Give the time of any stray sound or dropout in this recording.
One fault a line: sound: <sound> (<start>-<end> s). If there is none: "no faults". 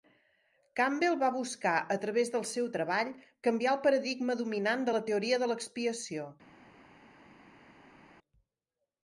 no faults